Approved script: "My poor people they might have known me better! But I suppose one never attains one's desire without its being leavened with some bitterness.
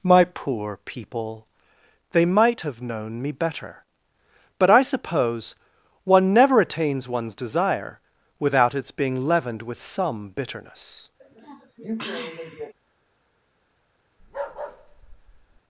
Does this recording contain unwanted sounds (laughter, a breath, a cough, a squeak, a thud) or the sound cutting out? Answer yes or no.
yes